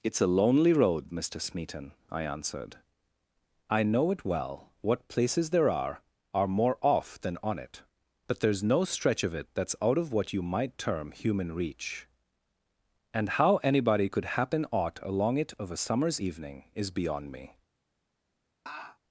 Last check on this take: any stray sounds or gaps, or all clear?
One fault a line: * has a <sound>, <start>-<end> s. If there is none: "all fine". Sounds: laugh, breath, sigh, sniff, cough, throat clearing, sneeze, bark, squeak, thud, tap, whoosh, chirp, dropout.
* has a laugh, 18.7-19.0 s